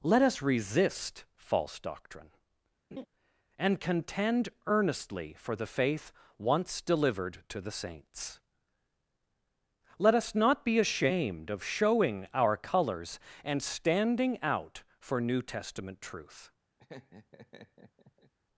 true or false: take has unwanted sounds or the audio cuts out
true